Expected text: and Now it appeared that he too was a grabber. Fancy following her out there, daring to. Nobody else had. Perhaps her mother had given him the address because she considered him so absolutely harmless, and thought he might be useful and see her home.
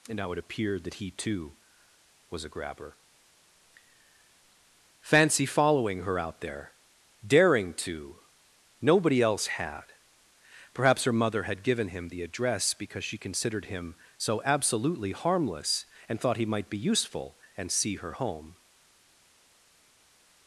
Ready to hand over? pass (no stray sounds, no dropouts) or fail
pass